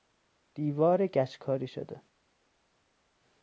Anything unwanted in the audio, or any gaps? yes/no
no